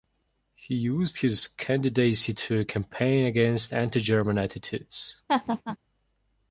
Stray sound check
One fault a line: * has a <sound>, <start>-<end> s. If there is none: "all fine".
* has a laugh, 5.3-5.8 s